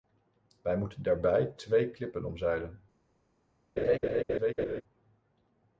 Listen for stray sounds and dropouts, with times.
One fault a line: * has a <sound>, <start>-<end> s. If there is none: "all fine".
* has a laugh, 3.8-4.8 s